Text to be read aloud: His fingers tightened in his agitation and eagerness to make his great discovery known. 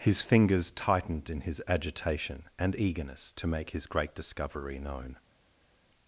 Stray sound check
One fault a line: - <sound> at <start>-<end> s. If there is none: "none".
none